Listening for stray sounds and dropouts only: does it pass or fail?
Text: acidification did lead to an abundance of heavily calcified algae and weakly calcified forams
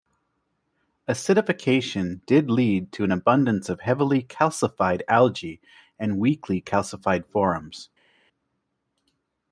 pass